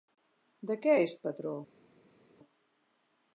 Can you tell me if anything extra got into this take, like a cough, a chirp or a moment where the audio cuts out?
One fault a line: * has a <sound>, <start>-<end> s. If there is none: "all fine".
all fine